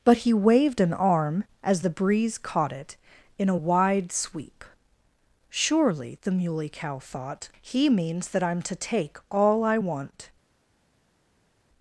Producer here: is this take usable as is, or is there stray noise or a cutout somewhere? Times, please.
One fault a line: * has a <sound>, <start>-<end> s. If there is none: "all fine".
all fine